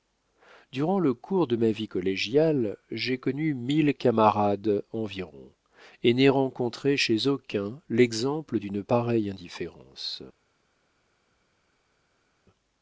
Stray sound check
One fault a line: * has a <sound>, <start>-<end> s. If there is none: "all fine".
all fine